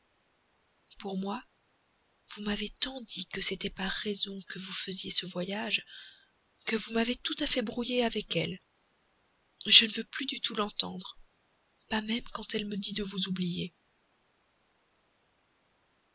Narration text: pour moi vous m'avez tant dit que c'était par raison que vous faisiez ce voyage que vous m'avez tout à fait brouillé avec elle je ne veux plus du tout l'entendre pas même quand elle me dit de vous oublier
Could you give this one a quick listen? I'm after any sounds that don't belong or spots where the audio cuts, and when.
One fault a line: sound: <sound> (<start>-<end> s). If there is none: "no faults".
no faults